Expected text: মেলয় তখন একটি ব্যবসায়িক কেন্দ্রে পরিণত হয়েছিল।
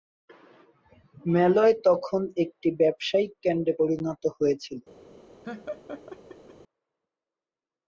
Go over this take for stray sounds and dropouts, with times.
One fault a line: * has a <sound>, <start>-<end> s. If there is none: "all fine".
* has a laugh, 5.4-6.5 s